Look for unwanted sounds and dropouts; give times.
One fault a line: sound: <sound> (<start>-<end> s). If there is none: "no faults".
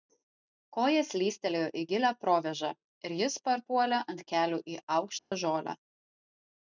sound: dropout (5.2-5.3 s)